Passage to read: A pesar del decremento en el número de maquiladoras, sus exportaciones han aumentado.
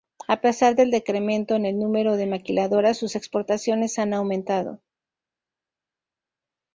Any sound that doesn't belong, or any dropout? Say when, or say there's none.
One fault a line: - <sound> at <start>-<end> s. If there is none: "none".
none